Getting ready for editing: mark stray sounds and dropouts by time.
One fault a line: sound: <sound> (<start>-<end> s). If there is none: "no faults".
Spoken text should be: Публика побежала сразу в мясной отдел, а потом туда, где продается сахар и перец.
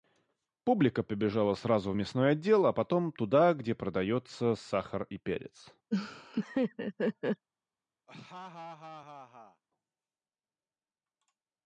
sound: laugh (5.9-7.5 s)
sound: laugh (8.1-9.6 s)